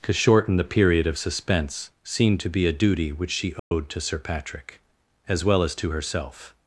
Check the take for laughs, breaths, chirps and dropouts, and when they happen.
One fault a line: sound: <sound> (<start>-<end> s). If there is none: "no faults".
sound: dropout (3.6-3.7 s)